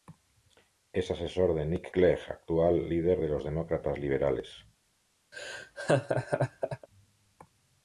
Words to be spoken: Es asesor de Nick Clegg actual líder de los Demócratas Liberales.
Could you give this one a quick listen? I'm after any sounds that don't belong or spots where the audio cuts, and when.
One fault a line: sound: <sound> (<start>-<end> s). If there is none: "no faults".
sound: laugh (5.3-6.9 s)